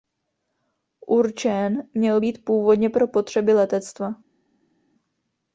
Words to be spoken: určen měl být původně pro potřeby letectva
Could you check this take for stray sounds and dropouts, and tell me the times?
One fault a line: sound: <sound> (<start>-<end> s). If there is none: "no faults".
no faults